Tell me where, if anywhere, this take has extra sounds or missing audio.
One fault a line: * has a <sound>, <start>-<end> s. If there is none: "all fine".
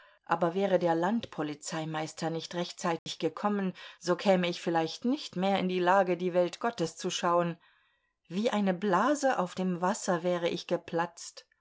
* has a dropout, 3.0-3.1 s